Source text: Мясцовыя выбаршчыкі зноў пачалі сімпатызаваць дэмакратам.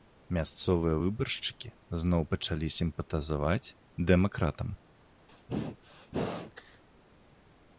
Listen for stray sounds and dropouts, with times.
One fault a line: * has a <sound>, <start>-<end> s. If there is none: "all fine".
* has a sneeze, 5.3-6.8 s